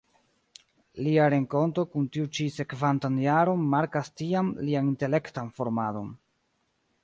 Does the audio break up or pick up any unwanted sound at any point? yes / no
no